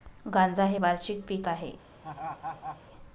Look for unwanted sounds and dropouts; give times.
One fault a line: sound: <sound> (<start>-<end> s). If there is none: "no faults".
sound: laugh (2.0-2.8 s)